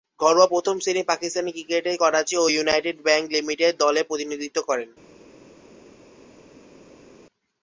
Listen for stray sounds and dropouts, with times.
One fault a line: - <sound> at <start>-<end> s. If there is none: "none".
none